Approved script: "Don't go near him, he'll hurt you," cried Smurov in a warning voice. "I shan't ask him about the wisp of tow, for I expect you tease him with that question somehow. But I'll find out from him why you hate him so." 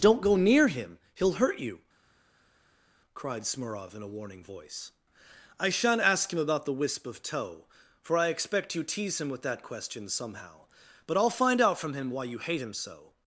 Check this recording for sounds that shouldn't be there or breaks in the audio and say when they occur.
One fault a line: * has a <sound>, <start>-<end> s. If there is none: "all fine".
all fine